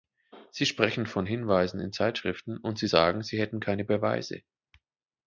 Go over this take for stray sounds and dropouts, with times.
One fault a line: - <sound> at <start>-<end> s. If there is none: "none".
none